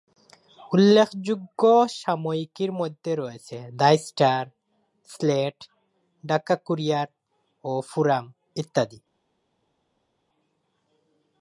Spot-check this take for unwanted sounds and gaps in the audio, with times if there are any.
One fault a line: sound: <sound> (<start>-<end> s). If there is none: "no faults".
no faults